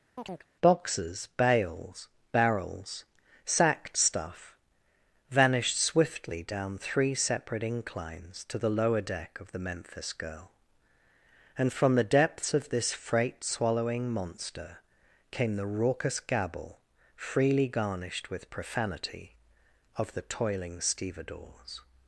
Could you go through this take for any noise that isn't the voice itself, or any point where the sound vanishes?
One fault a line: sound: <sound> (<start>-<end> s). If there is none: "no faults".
sound: chirp (0.2-0.5 s)